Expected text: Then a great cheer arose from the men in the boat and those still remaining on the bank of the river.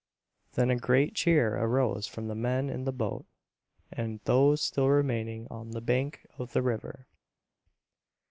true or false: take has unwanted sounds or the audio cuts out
false